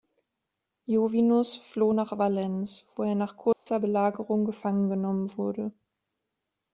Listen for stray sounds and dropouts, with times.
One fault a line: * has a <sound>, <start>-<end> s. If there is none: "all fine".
* has a dropout, 3.5-3.7 s